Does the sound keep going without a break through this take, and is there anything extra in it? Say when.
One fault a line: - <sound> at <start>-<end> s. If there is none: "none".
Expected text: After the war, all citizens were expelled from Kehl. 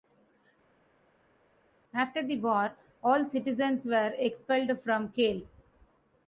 none